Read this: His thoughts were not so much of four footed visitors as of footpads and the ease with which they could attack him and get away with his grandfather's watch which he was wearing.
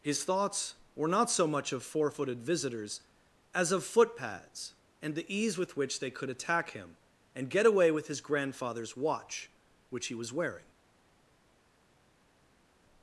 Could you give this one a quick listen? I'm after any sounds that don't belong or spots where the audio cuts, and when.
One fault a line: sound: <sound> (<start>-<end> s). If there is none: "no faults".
no faults